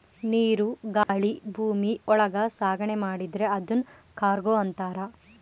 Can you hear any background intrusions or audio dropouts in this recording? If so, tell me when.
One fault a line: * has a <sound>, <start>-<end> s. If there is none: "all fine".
* has a dropout, 1.0-1.1 s